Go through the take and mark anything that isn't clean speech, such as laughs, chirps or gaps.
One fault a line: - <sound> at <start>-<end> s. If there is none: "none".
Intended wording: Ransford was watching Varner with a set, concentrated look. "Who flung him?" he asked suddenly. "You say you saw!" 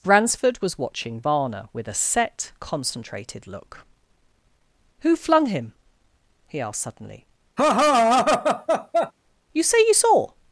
- laugh at 7.6-9.1 s